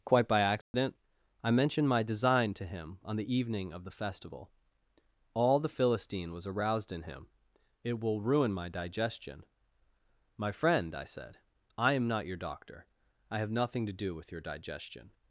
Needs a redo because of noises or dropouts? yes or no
yes